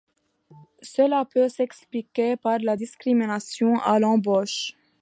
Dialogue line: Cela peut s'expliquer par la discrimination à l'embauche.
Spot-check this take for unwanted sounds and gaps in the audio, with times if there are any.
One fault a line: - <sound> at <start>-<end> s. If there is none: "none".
none